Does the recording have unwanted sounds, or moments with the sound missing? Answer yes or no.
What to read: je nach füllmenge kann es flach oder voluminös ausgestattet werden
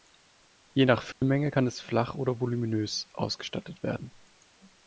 yes